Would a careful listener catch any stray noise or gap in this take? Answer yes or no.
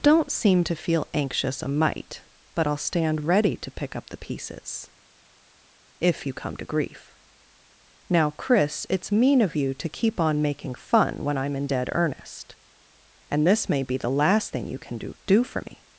no